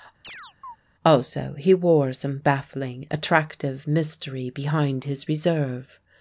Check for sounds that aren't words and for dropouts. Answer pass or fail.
fail